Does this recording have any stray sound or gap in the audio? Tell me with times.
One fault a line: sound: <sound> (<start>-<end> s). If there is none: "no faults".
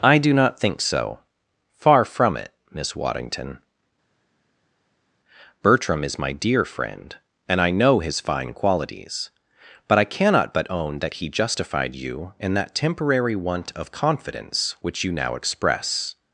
no faults